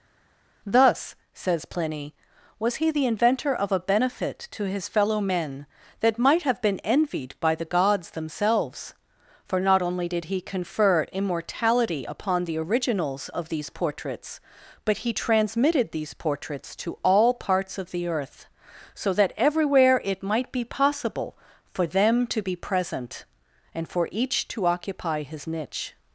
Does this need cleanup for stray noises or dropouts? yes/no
no